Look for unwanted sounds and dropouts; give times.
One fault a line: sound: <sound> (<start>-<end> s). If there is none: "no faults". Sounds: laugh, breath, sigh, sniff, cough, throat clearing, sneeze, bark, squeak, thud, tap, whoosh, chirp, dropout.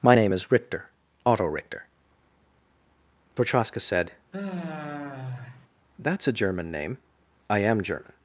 sound: sigh (4.3-5.7 s)